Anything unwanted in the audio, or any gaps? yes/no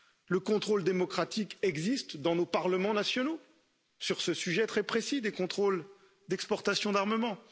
no